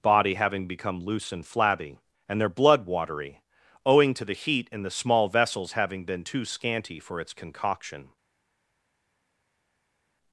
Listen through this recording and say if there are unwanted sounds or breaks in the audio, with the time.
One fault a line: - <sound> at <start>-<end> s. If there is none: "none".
none